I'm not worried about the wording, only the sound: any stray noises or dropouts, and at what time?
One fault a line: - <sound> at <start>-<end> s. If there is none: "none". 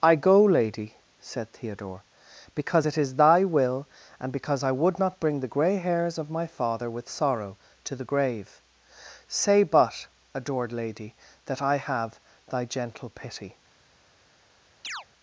- chirp at 14.8-15.1 s